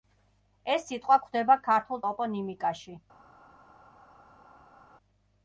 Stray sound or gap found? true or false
false